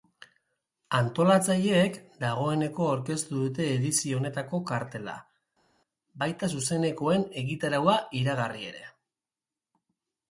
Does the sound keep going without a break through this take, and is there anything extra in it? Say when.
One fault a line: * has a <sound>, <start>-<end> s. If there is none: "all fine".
all fine